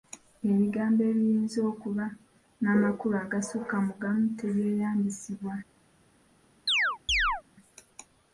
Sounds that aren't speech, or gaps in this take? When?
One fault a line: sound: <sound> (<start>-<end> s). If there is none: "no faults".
sound: chirp (6.7-7.4 s)